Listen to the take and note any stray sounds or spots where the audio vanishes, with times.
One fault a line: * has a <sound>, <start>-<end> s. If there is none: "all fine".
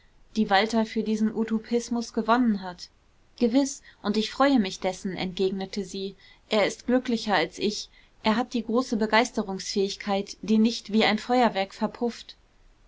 all fine